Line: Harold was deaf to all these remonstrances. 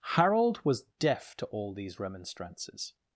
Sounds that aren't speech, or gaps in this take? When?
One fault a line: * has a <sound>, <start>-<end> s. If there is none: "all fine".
all fine